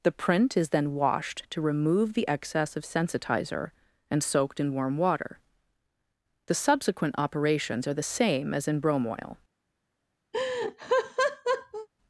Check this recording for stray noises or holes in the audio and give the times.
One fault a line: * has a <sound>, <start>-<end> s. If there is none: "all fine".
* has a laugh, 10.3-11.9 s